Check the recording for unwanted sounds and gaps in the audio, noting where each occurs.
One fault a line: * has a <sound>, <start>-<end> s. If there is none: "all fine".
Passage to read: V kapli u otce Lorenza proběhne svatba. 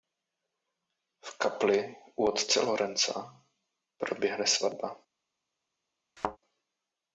* has a thud, 6.2-6.4 s